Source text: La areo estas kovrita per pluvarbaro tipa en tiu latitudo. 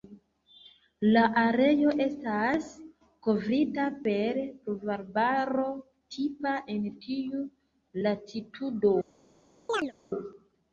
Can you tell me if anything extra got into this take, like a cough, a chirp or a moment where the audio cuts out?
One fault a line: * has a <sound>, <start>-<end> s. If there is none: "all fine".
* has a chirp, 9.7-9.9 s